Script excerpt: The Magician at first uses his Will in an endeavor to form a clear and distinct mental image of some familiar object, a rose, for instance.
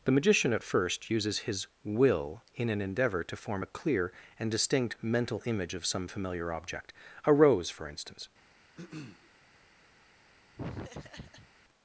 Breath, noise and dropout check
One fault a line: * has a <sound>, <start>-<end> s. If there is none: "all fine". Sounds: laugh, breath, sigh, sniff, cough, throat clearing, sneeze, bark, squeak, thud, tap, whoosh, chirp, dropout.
* has a throat clearing, 8.8-9.3 s
* has a laugh, 10.6-11.5 s